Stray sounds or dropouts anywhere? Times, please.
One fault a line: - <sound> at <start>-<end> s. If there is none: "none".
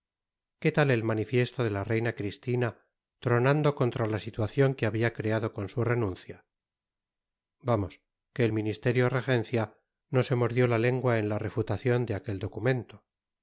none